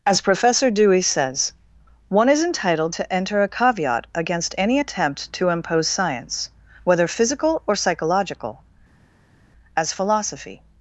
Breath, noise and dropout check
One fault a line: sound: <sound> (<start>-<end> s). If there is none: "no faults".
no faults